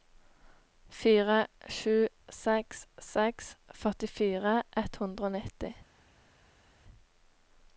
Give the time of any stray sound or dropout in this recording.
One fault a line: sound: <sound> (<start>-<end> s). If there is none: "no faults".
no faults